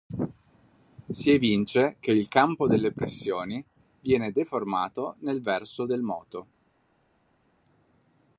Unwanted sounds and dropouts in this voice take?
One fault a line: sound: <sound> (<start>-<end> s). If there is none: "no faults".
no faults